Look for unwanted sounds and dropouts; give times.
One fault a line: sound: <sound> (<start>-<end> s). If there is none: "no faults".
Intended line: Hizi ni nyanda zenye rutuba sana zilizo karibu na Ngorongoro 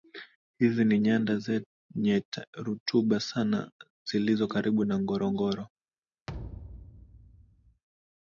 sound: thud (6.3-7.8 s)